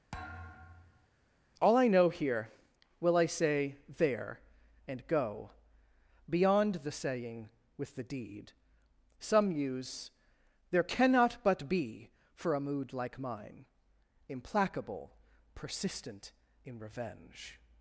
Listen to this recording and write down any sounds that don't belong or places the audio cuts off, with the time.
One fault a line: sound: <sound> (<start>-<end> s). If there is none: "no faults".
sound: thud (0.1-1.1 s)